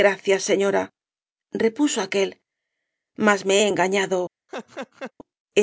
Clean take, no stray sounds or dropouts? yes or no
no